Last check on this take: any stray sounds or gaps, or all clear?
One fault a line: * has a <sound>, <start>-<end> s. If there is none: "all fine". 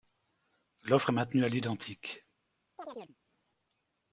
* has a chirp, 2.8-3.2 s